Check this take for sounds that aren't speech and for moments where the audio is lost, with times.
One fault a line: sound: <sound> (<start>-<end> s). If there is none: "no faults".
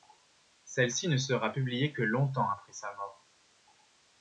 no faults